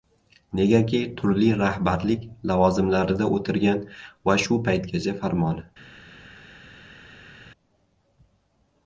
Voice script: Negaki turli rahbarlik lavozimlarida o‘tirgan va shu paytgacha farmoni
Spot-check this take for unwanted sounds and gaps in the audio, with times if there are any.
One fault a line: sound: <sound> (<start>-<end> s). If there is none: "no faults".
no faults